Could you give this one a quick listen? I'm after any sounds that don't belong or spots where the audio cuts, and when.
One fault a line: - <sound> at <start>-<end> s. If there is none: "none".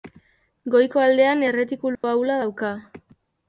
- dropout at 1.9-2.0 s